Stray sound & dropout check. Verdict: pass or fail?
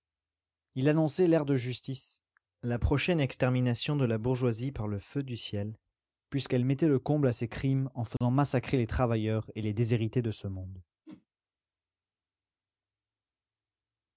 fail